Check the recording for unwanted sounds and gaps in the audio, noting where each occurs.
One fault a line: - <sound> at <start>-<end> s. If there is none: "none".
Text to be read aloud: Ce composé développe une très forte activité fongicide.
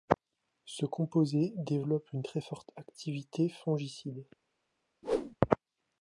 - whoosh at 5.0-5.4 s